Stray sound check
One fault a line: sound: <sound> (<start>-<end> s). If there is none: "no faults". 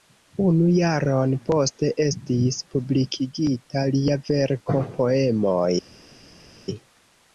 no faults